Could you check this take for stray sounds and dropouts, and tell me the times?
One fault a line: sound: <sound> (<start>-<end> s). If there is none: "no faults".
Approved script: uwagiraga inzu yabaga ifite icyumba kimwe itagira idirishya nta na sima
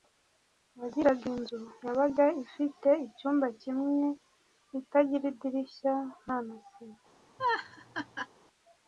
sound: laugh (7.4-8.3 s)